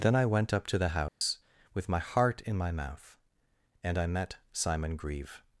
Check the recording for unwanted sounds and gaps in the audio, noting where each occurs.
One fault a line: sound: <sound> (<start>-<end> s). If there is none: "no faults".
sound: dropout (1.1-1.2 s)